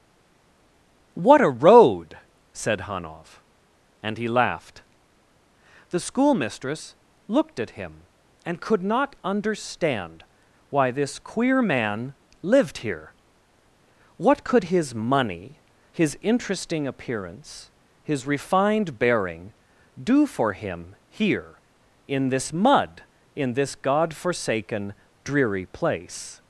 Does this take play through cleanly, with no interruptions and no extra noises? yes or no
yes